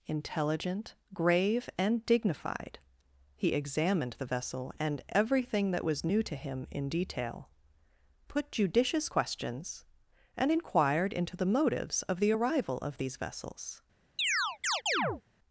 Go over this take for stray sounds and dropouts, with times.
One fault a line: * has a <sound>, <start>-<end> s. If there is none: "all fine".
* has a chirp, 14.2-15.2 s